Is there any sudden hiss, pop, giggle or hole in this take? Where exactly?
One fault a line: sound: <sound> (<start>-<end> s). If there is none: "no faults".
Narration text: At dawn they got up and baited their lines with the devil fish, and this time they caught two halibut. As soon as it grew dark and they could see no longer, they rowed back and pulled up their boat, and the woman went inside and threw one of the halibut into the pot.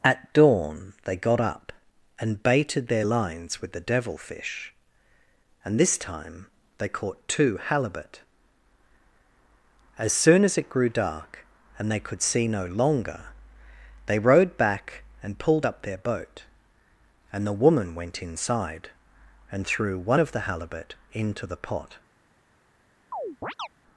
sound: chirp (23.1-23.7 s)